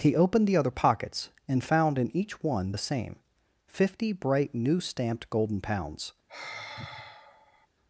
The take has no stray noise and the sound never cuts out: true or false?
false